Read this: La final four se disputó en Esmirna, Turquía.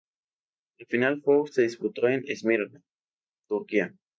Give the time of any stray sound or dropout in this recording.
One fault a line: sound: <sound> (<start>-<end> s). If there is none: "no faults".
no faults